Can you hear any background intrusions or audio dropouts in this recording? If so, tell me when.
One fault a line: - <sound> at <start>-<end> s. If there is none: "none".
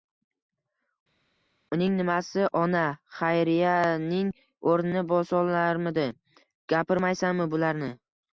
none